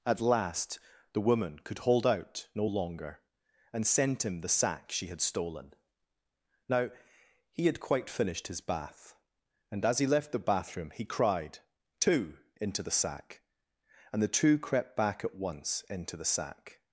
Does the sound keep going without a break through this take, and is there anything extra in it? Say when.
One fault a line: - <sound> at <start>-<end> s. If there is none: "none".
none